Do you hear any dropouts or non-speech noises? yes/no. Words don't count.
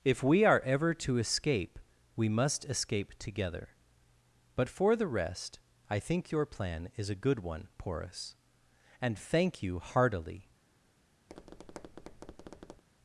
yes